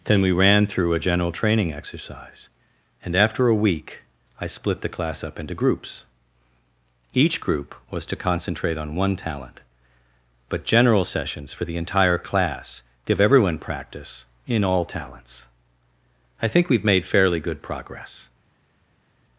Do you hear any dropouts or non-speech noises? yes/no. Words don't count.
no